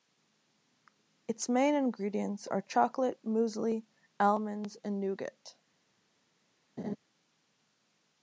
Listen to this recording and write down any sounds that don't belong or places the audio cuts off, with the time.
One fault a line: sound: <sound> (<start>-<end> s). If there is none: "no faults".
sound: laugh (6.8-7.0 s)